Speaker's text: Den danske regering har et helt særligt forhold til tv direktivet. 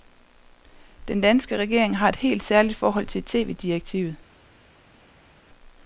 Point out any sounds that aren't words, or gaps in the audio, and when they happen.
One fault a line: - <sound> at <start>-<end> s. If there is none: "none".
none